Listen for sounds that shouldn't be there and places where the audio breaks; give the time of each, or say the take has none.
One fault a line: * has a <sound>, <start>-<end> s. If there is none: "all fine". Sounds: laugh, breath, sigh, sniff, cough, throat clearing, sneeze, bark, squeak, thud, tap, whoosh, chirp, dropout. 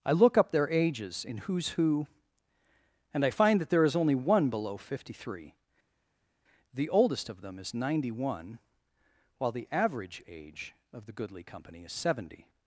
all fine